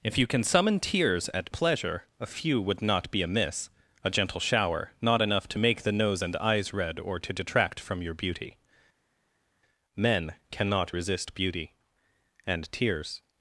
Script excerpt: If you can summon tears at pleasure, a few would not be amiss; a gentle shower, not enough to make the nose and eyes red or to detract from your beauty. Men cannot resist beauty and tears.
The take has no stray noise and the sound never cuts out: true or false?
true